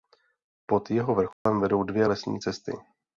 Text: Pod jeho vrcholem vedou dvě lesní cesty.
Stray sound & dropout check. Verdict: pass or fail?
fail